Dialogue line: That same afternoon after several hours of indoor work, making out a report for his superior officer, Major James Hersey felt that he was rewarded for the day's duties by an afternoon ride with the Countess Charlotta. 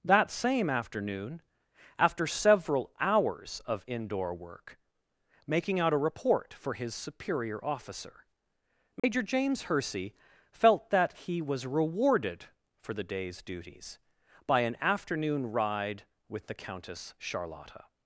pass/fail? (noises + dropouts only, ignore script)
fail